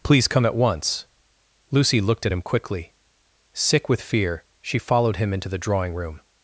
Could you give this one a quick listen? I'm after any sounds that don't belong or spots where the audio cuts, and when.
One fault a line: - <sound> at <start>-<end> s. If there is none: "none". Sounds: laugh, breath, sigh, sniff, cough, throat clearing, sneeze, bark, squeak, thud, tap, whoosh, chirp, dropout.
none